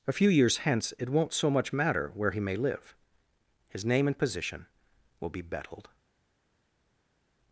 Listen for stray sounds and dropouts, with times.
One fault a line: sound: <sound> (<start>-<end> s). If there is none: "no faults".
no faults